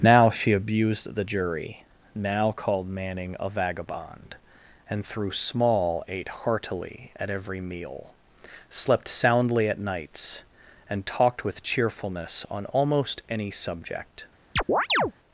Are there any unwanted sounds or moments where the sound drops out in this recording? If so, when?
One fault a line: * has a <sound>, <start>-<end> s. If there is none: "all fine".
* has a chirp, 14.6-15.1 s